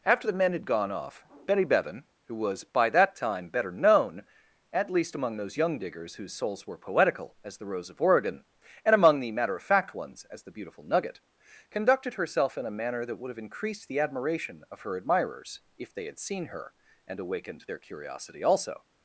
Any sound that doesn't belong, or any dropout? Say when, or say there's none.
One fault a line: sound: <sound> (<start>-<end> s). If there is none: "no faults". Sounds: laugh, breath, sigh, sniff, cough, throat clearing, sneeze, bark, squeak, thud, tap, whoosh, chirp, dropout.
no faults